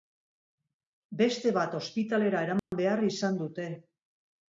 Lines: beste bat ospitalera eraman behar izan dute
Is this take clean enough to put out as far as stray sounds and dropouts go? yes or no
no